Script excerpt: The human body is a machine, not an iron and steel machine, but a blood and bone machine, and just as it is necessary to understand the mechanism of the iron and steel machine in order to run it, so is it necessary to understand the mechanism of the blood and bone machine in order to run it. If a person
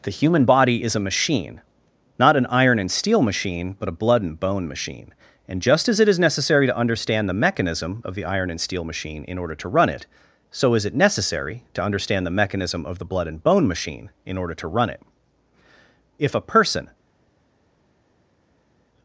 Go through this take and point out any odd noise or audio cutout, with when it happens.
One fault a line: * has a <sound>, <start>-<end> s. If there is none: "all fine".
all fine